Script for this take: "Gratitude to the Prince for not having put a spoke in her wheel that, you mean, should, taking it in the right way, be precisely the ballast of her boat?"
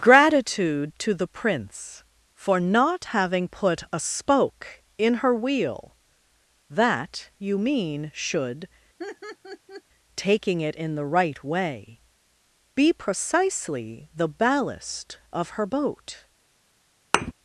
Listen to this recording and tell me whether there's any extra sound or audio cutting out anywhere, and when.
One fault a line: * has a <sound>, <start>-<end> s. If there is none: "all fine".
* has a laugh, 9.0-9.8 s
* has a thud, 17.1-17.3 s